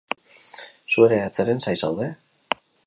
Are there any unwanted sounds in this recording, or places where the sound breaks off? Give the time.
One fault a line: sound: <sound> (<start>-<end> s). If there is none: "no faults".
no faults